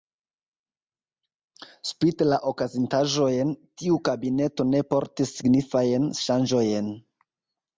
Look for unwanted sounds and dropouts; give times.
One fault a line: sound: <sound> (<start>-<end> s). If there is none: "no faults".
no faults